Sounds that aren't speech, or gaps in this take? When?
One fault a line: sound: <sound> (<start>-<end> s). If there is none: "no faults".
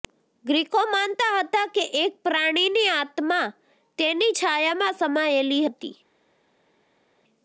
no faults